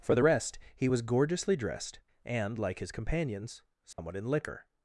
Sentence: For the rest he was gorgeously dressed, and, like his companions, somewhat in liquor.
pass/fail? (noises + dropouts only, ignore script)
fail